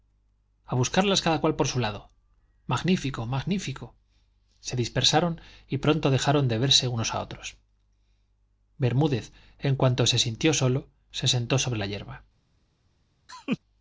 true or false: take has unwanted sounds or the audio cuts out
true